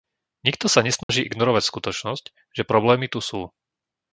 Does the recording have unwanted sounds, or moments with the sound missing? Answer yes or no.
yes